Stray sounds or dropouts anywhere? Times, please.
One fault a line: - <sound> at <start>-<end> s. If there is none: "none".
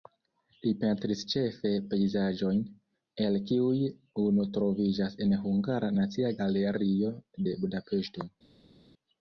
none